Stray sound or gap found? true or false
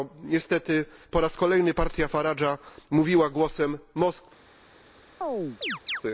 true